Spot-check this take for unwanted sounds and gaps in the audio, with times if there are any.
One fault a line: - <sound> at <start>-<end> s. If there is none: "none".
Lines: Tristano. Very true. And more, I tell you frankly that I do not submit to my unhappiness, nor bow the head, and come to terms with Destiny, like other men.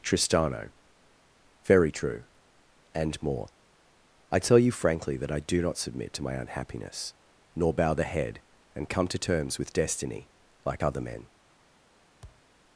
- thud at 12.2-12.5 s